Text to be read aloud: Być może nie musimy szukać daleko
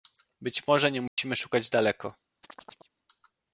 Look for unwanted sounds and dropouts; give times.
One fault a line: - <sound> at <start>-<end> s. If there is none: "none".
- dropout at 1.1-1.2 s
- chirp at 2.4-2.9 s